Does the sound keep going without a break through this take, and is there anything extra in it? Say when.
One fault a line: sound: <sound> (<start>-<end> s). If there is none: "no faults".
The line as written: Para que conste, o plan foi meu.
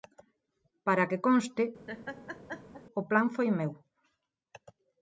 sound: laugh (1.9-2.8 s)